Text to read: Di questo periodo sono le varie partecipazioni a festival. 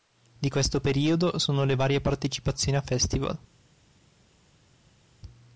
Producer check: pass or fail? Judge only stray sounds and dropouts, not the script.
pass